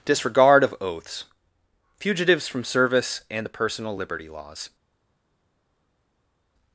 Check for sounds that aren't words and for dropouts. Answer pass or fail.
pass